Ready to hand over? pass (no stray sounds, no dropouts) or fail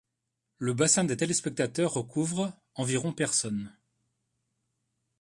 pass